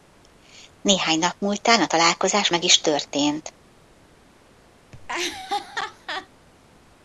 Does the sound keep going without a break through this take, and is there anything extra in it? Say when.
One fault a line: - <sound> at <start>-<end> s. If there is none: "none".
- laugh at 4.9-6.3 s